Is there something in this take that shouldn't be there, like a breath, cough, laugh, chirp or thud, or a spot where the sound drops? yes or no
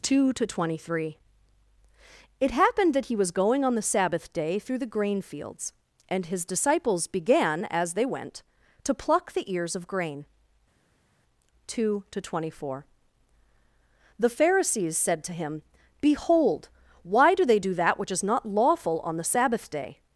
no